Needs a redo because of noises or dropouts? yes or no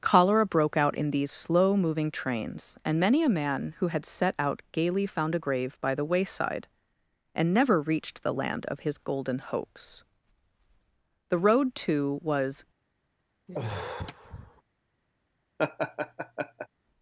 yes